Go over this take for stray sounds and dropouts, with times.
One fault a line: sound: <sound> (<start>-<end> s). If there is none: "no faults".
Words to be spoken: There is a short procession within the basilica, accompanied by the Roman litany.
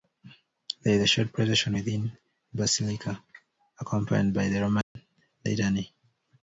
sound: dropout (4.8-5.0 s)